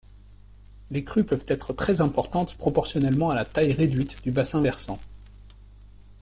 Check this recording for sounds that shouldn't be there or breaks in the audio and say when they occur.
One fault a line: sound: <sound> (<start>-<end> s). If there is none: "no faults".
no faults